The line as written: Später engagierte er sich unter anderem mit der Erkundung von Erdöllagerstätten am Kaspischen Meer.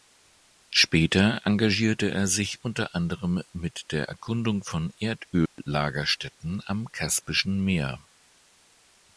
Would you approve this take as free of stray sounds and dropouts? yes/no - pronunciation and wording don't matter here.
no